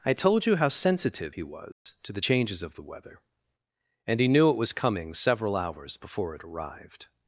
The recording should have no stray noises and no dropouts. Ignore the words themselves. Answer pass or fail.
fail